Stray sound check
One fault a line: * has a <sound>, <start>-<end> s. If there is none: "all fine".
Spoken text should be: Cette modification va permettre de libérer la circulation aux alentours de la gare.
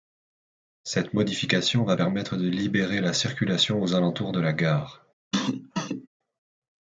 * has a cough, 5.3-6.1 s